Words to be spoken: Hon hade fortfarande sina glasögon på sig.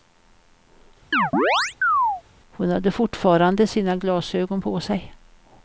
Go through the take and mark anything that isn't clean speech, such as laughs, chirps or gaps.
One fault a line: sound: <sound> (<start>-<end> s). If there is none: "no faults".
sound: chirp (1.1-2.2 s)